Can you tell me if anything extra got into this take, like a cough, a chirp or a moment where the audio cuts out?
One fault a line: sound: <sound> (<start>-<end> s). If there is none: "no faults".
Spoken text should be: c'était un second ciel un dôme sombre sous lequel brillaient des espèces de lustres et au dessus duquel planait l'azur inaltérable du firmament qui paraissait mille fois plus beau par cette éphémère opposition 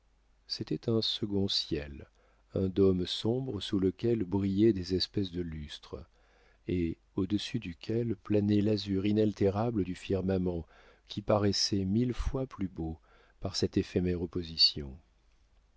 no faults